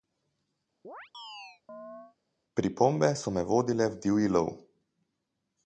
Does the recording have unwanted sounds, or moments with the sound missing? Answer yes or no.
yes